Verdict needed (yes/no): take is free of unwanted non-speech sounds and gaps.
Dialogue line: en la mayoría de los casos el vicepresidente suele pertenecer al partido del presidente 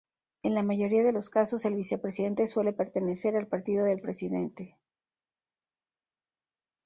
yes